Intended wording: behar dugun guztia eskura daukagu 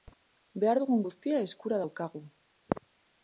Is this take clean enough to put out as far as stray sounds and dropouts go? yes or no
yes